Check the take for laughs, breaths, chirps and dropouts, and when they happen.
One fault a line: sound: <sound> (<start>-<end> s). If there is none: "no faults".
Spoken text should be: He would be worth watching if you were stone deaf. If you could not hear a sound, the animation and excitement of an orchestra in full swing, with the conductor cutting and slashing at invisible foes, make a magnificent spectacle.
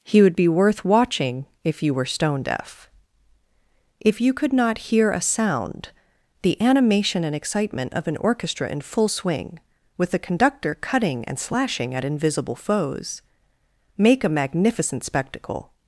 no faults